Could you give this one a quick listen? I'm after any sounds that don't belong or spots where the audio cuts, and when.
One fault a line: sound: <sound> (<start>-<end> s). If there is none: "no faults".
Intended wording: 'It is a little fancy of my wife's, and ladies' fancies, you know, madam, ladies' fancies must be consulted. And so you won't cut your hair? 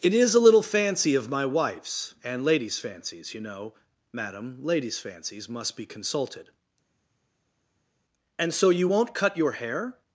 no faults